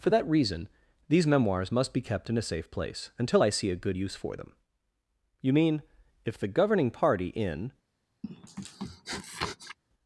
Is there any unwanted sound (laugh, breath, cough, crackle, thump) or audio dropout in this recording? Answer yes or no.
yes